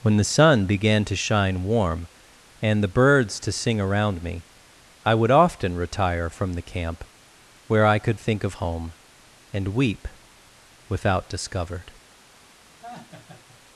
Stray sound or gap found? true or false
true